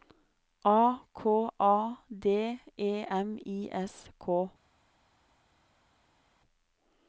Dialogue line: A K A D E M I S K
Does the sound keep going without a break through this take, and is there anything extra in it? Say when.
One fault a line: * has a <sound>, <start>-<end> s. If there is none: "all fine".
all fine